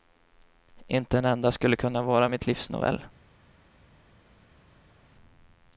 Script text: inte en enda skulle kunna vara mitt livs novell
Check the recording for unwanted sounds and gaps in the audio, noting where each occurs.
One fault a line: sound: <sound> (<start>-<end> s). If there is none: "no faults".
no faults